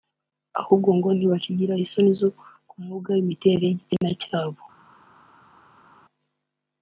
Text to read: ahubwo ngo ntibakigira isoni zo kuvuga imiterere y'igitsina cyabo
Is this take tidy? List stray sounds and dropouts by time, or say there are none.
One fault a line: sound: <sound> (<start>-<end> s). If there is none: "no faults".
no faults